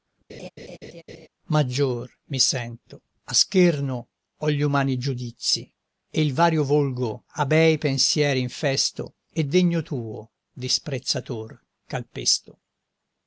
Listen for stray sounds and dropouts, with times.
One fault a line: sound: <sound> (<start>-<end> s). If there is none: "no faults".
sound: laugh (0.3-1.3 s)